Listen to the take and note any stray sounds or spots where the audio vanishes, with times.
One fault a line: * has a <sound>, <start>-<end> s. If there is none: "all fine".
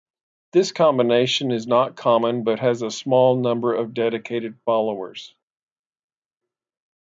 all fine